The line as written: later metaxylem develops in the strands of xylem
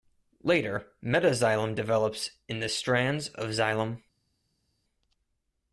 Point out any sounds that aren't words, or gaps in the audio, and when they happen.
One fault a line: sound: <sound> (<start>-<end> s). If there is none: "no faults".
no faults